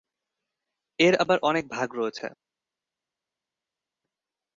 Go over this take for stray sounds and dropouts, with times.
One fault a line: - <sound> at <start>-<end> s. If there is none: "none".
none